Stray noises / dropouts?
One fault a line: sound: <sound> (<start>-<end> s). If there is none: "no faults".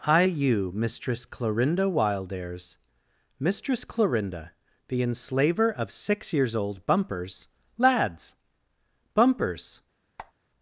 sound: squeak (10.2-10.3 s)